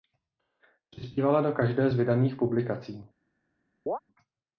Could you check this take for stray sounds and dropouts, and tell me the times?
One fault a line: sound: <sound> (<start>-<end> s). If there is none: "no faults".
sound: chirp (3.9-4.0 s)